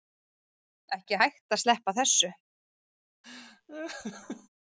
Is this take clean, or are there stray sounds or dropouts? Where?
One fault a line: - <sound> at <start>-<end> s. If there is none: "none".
- laugh at 3.2-4.5 s